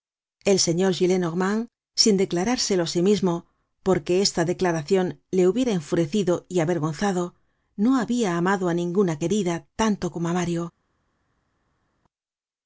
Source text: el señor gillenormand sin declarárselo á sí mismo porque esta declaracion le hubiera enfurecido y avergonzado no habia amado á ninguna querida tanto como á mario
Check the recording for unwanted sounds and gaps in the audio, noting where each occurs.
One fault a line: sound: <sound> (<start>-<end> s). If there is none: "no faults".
no faults